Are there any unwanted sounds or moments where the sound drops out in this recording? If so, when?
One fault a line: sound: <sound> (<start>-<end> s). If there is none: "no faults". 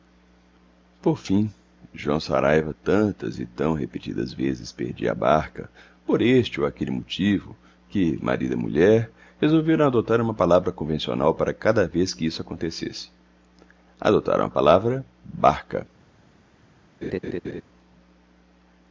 sound: laugh (17.0-17.6 s)